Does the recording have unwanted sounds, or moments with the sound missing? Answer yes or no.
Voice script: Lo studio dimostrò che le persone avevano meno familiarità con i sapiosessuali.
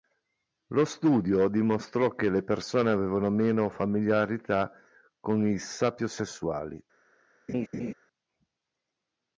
yes